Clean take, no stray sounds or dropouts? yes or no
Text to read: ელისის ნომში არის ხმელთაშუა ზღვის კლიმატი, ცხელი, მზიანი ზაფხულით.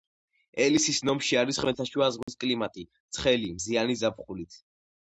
no